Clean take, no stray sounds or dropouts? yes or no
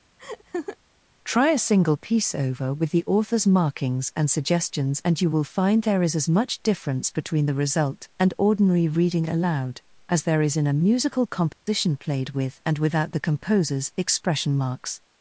no